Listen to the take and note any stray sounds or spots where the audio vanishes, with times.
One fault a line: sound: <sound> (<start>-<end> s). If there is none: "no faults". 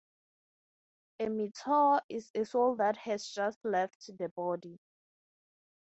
no faults